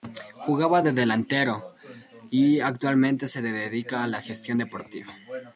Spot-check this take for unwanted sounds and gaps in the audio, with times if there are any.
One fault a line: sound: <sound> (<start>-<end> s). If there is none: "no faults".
no faults